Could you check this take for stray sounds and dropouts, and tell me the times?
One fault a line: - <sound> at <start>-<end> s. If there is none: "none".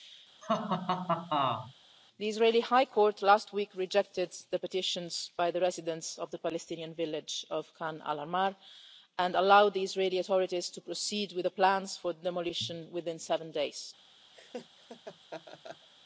- laugh at 0.4-1.7 s
- laugh at 14.3-15.9 s